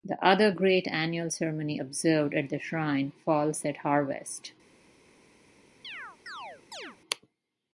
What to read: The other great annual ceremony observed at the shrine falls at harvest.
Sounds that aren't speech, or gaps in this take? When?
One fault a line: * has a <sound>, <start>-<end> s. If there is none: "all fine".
* has a chirp, 5.8-7.0 s